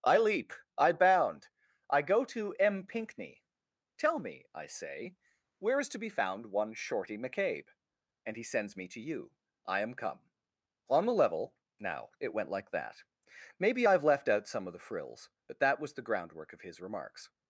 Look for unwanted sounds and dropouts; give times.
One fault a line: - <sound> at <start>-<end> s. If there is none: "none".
none